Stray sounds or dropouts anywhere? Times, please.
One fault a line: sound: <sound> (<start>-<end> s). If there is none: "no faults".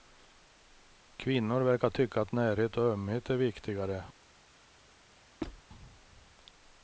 sound: squeak (5.4-5.6 s)